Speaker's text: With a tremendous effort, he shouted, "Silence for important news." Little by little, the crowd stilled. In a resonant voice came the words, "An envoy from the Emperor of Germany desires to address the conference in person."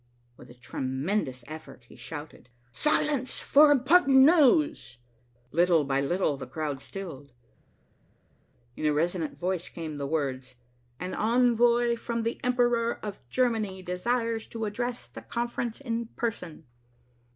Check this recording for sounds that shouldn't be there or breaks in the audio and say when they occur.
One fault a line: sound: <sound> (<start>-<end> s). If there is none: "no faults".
no faults